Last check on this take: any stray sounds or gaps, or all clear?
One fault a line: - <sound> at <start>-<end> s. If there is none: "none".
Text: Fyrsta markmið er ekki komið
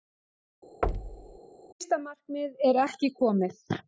- thud at 0.8-1.4 s